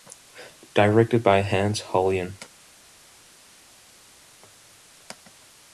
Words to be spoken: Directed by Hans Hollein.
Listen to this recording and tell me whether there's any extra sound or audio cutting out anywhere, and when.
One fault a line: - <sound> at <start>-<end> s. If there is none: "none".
none